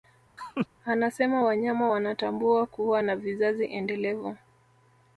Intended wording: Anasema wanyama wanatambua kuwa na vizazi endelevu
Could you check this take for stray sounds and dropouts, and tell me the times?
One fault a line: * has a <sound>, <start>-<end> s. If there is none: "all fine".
* has a laugh, 0.4-0.7 s